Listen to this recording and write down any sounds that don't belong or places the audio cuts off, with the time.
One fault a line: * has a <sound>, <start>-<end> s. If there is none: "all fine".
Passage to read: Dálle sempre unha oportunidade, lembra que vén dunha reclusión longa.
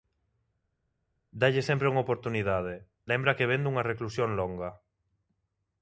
all fine